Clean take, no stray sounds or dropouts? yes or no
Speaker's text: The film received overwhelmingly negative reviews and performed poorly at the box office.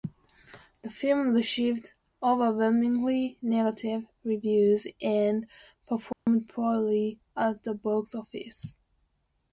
no